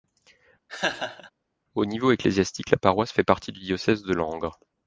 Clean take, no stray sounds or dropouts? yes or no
no